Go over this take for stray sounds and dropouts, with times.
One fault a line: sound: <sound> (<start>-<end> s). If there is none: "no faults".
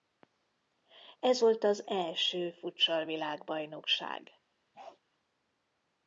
sound: bark (4.7-5.0 s)